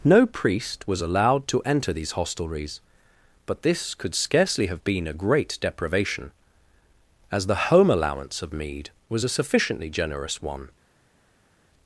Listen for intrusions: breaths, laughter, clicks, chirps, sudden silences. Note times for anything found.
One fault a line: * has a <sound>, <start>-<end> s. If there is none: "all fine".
all fine